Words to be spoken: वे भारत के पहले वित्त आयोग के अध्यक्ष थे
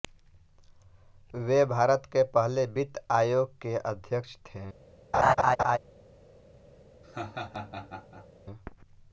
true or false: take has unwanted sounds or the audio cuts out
true